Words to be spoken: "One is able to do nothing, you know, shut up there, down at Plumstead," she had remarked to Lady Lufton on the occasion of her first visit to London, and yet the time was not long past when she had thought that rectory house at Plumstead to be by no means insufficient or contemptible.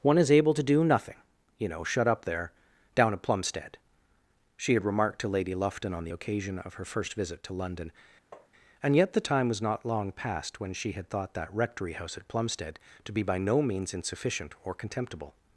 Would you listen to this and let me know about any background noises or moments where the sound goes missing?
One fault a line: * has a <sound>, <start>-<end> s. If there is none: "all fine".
* has a tap, 8.3-8.5 s